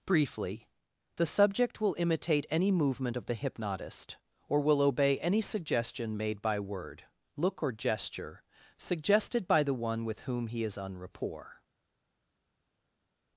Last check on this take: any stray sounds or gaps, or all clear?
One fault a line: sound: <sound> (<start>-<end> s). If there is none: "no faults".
no faults